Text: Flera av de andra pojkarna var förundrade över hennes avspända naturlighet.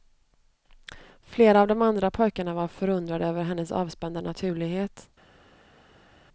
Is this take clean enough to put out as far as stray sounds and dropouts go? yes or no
yes